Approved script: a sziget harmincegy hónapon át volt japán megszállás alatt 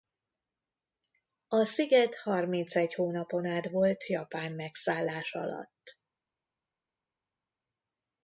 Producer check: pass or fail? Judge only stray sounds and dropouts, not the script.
pass